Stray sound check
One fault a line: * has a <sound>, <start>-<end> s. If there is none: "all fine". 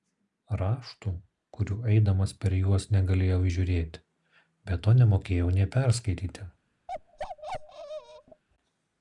* has a bark, 6.9-8.4 s